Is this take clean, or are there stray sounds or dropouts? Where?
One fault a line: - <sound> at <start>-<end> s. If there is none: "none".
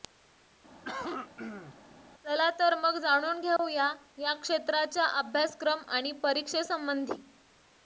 - cough at 0.8-1.7 s
- dropout at 3.6-3.6 s